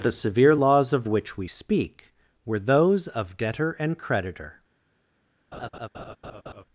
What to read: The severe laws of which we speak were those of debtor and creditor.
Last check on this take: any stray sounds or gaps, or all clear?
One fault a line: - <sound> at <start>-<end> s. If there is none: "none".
- laugh at 5.5-6.6 s